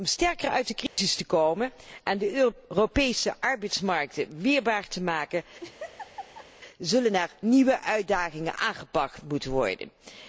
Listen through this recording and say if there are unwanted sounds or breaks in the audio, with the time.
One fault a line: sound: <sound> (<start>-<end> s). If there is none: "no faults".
sound: dropout (0.9-1.0 s)
sound: laugh (5.6-6.5 s)